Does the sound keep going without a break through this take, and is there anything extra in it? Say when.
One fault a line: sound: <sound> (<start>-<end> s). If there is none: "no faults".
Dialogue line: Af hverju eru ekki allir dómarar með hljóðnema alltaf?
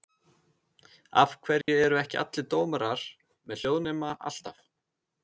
sound: dropout (1.6-1.7 s)